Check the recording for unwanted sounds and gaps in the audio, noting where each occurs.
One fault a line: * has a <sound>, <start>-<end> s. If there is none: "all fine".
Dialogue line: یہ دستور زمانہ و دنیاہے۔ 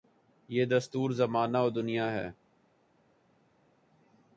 all fine